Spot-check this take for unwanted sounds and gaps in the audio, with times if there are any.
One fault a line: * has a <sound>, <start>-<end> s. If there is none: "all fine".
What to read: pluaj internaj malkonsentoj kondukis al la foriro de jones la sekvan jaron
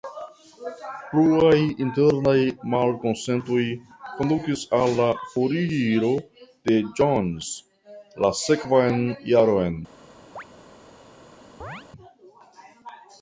* has a chirp, 10.4-10.4 s
* has a chirp, 11.6-11.9 s